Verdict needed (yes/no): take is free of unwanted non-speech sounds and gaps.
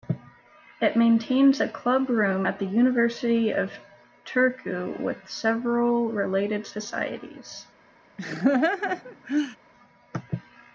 no